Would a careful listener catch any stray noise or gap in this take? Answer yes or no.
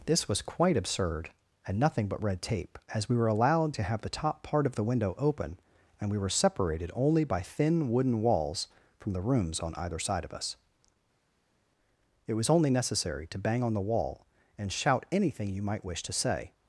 no